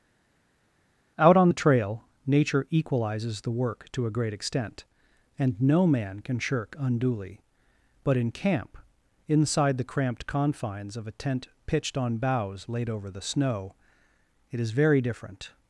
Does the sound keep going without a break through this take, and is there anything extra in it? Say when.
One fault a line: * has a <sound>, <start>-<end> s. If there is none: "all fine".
all fine